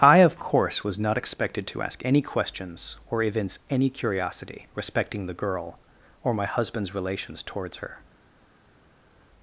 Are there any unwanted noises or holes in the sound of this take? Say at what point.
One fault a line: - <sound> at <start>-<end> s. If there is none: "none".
none